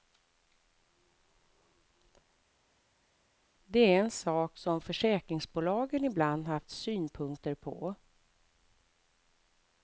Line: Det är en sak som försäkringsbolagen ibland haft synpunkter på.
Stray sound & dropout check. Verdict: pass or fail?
pass